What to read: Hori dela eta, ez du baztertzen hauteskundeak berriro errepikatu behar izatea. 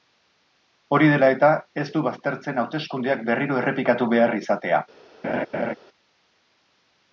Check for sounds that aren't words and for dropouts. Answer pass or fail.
fail